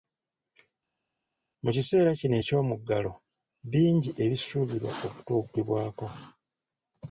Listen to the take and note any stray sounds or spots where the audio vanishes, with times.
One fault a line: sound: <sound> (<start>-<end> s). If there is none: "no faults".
no faults